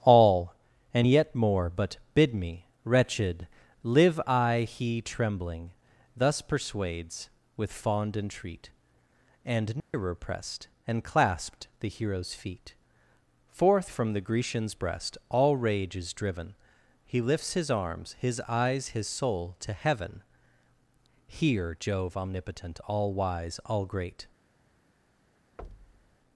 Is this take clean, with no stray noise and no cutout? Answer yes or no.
no